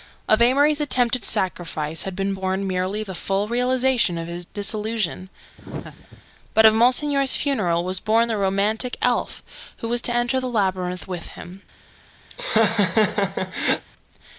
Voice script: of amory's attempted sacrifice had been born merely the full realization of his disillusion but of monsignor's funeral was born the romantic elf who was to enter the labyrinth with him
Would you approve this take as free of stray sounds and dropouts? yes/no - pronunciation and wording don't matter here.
no